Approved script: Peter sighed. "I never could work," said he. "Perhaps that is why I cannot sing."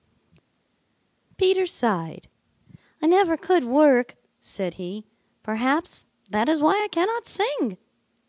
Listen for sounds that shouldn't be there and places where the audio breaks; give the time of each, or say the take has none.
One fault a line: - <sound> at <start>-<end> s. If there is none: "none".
none